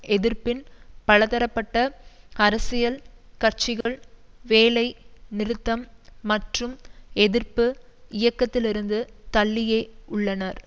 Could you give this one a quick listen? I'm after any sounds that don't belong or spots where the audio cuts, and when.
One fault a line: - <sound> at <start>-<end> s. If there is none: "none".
- dropout at 3.8-3.9 s